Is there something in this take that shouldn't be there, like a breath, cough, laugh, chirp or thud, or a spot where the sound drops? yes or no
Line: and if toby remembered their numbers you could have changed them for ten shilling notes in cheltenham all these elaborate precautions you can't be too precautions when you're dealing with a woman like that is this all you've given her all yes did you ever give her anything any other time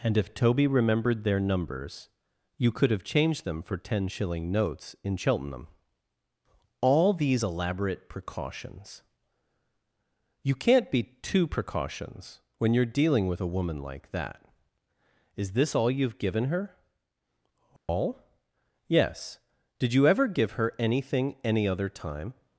yes